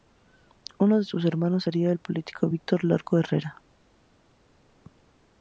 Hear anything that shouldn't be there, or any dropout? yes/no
no